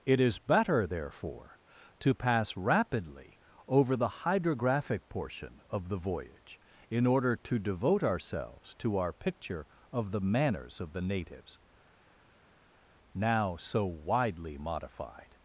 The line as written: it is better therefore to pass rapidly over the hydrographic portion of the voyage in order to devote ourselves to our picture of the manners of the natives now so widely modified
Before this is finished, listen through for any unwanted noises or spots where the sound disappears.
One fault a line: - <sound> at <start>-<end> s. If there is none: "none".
none